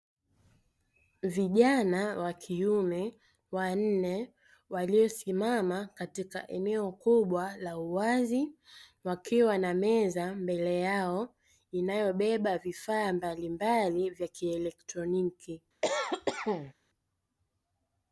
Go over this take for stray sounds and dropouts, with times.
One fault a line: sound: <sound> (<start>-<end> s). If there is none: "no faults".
sound: cough (15.8-16.7 s)